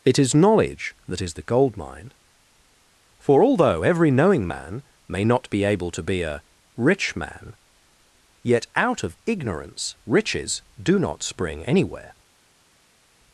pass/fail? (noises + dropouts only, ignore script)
pass